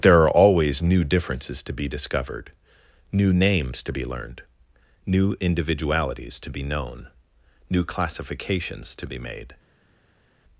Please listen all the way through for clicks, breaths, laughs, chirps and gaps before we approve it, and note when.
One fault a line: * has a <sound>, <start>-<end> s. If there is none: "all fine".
all fine